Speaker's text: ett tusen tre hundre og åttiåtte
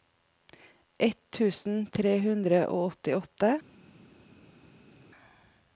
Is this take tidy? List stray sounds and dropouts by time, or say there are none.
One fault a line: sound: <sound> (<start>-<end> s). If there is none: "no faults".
no faults